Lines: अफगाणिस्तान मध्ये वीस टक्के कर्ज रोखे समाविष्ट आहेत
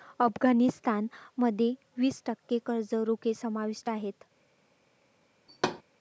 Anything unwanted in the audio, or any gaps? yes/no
yes